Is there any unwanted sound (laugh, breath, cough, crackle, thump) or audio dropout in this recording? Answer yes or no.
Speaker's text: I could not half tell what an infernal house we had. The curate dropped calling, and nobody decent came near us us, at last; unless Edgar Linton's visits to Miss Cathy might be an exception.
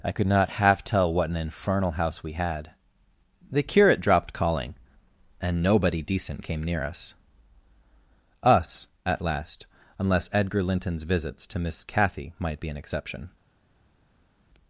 no